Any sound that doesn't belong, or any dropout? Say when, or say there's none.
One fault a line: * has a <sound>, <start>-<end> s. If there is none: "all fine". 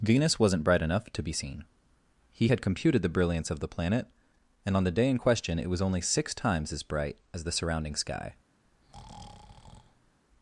* has a breath, 8.6-10.2 s